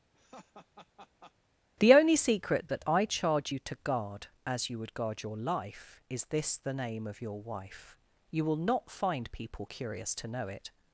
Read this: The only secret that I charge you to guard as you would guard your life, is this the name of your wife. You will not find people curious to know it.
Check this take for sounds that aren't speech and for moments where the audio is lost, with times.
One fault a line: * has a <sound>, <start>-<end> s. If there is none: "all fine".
* has a laugh, 0.1-1.3 s